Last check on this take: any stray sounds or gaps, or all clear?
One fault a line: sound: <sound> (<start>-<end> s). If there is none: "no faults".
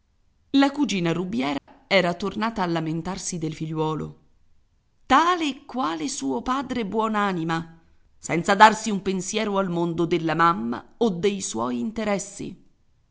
sound: dropout (1.6-1.7 s)